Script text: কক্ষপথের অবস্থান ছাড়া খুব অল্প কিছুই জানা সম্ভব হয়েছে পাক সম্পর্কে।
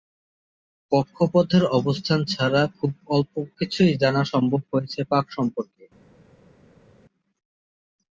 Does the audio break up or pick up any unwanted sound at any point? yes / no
no